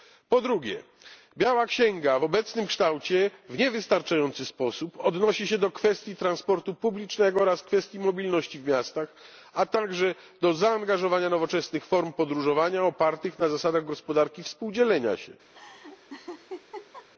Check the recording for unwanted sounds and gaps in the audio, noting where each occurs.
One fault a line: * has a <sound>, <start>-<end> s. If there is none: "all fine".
* has a laugh, 15.5-17.1 s